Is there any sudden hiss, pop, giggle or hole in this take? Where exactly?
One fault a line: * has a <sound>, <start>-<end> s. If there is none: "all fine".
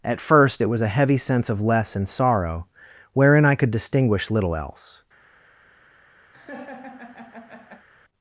* has a laugh, 6.3-7.9 s